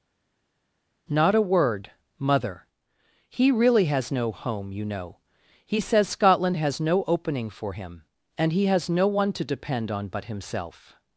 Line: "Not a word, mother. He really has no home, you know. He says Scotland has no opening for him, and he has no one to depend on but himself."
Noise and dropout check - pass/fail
pass